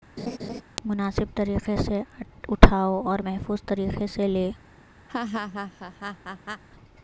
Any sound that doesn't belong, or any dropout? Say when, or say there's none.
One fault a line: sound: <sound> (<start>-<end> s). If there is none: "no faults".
sound: laugh (0.2-0.6 s)
sound: laugh (5.1-6.6 s)